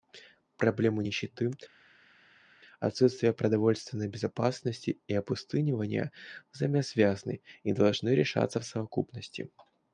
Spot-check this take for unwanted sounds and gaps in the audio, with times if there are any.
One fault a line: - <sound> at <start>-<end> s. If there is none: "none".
none